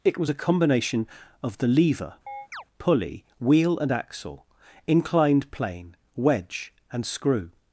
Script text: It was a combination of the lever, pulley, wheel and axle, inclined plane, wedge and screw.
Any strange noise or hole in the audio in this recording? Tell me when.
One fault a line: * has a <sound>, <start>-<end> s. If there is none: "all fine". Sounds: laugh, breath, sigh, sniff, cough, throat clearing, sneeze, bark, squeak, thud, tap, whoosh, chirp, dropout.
* has a chirp, 2.3-2.6 s